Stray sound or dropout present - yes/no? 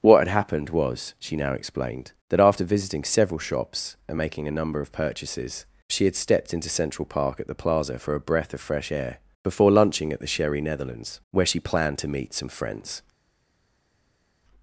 no